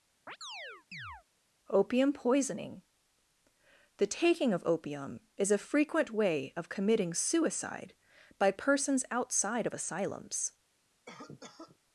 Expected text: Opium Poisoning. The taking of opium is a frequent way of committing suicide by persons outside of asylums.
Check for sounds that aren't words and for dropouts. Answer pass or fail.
fail